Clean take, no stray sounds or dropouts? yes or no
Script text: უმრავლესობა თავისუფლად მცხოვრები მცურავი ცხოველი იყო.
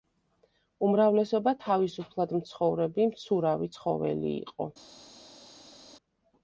yes